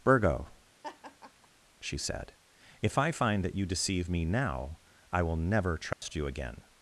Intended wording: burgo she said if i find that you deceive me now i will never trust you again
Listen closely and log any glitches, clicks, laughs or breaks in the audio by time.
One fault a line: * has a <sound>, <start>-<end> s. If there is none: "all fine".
* has a laugh, 0.8-1.5 s
* has a dropout, 5.9-6.0 s